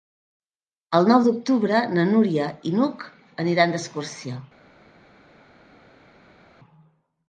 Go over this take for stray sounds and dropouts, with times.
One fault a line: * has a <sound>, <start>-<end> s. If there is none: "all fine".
all fine